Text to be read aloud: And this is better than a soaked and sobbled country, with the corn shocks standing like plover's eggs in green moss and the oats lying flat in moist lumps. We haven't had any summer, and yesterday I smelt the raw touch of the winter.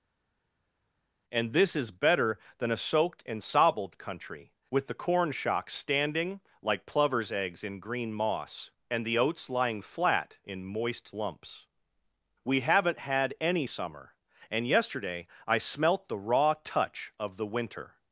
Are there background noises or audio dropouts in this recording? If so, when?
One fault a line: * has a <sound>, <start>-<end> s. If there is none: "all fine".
all fine